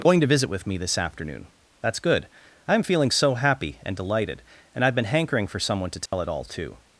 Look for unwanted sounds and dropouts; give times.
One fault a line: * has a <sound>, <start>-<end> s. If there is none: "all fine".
* has a dropout, 6.1-6.1 s